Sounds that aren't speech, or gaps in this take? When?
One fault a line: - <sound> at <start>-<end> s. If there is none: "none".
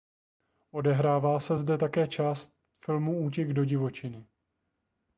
none